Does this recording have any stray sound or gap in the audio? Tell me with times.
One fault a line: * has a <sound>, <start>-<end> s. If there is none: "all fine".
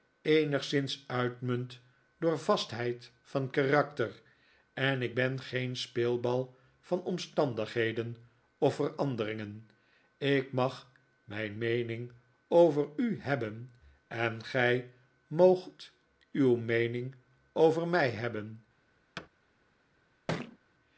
* has a thud, 19.2-19.3 s
* has a thud, 20.3-20.6 s